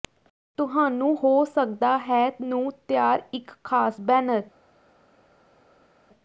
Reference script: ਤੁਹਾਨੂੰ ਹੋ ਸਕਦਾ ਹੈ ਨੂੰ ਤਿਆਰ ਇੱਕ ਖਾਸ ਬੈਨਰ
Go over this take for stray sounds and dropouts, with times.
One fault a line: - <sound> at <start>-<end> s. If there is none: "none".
none